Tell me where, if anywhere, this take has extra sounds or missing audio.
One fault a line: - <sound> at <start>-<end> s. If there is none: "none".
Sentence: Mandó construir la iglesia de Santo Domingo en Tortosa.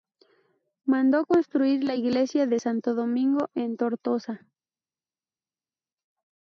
none